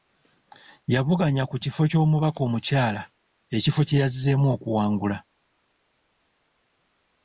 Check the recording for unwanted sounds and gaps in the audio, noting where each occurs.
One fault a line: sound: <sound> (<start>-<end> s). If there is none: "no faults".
no faults